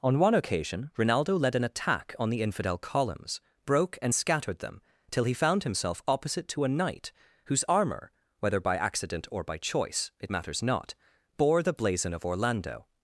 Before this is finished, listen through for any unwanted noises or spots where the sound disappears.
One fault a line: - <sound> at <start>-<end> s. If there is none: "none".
none